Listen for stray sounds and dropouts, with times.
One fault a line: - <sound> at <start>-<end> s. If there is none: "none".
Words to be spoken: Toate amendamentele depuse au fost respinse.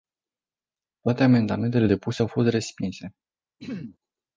- throat clearing at 3.6-4.0 s